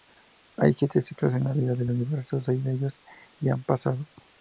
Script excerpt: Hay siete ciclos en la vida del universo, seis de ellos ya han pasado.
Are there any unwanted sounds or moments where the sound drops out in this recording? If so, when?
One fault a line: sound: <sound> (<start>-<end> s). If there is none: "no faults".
no faults